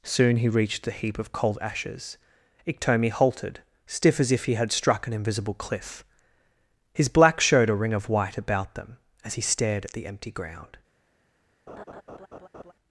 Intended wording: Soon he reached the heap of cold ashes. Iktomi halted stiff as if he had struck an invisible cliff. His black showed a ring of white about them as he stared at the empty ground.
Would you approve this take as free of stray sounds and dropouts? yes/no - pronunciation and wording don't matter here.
no